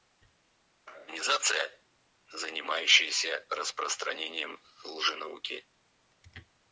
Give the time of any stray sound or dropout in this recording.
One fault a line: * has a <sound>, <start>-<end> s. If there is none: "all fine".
all fine